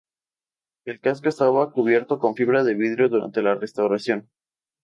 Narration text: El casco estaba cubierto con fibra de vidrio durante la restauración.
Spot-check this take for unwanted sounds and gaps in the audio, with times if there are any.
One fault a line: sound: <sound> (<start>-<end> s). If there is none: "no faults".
no faults